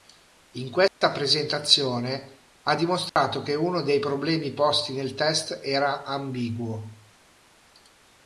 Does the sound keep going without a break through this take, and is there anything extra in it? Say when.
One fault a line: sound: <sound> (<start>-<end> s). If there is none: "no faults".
sound: dropout (0.9-1.0 s)
sound: dropout (3.1-3.2 s)